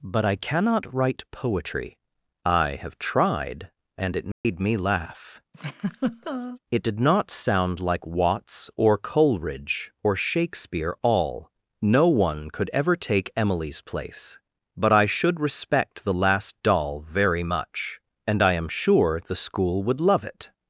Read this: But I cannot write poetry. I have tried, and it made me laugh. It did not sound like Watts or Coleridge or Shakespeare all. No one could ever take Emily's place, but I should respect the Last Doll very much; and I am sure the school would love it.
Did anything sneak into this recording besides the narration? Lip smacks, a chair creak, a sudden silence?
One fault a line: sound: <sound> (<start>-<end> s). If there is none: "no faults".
sound: dropout (4.3-4.4 s)
sound: laugh (5.5-6.6 s)